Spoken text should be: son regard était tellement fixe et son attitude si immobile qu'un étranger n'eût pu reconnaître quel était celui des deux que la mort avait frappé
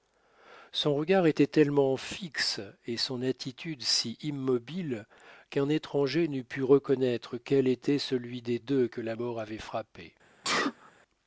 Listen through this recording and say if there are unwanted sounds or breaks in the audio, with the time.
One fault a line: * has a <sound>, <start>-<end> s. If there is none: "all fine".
* has a sneeze, 10.4-10.9 s